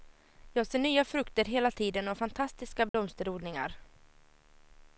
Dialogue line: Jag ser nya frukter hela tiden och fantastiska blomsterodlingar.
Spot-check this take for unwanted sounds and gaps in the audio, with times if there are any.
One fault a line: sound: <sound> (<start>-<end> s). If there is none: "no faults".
sound: dropout (2.9-2.9 s)